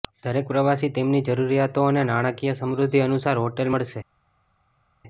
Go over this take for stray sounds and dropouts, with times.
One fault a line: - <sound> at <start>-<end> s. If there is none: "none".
none